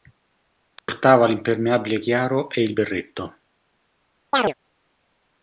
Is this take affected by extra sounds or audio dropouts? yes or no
yes